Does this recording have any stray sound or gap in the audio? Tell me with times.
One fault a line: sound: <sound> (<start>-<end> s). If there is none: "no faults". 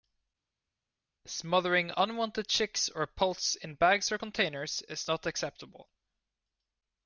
no faults